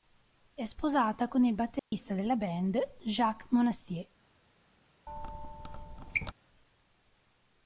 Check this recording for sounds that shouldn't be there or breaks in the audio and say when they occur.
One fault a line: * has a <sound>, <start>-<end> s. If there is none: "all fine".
* has a dropout, 1.8-1.9 s
* has a squeak, 5.1-6.3 s